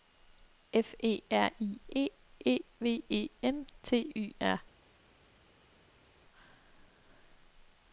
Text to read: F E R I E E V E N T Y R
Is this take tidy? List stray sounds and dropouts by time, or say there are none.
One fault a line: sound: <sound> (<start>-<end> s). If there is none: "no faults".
no faults